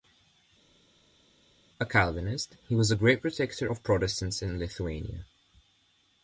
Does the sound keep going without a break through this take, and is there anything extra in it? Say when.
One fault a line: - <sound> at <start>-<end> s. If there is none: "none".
none